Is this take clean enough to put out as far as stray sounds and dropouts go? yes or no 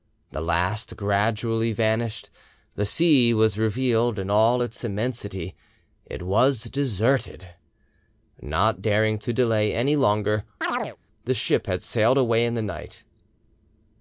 no